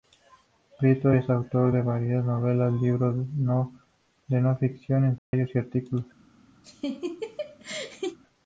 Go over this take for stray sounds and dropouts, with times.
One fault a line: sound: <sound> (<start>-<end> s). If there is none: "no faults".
sound: dropout (5.2-5.3 s)
sound: laugh (6.6-8.2 s)